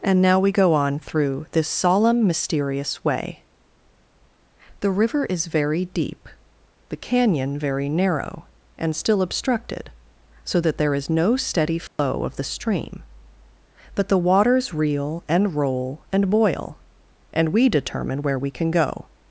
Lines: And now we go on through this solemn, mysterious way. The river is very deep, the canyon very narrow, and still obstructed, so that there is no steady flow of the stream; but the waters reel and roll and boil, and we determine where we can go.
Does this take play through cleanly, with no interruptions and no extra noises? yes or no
no